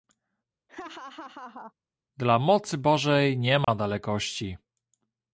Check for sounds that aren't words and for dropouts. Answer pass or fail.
fail